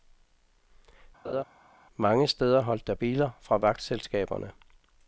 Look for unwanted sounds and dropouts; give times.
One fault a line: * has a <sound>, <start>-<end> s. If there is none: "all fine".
* has a laugh, 1.2-1.4 s